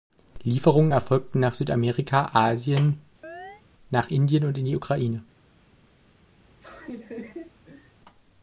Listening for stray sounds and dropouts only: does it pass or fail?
fail